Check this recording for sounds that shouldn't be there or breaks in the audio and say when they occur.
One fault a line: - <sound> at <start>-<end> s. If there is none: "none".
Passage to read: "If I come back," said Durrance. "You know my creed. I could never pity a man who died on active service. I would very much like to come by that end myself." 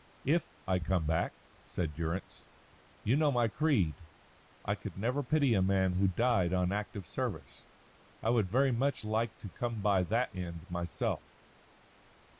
none